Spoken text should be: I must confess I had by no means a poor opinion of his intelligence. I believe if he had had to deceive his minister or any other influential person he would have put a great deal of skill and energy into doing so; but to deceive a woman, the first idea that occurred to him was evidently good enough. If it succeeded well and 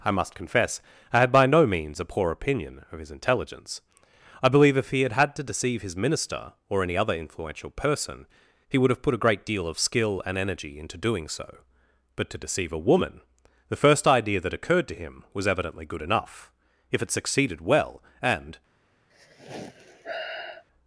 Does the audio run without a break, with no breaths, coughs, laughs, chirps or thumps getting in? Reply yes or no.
no